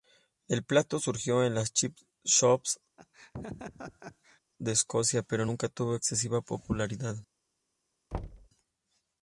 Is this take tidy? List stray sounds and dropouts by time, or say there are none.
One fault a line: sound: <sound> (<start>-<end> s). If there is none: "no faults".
sound: laugh (3.0-4.4 s)
sound: thud (8.1-8.5 s)